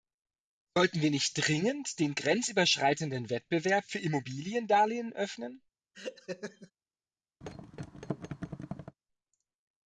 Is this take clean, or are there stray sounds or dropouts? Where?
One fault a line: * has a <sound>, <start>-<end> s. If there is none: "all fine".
* has a laugh, 5.9-6.7 s
* has a thud, 7.4-9.0 s